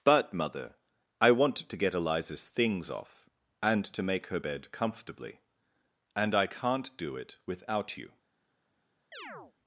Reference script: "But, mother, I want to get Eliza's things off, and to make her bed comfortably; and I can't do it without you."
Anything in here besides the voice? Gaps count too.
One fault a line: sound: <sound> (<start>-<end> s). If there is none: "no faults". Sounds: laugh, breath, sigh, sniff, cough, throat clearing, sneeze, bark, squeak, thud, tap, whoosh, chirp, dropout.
sound: chirp (9.1-9.5 s)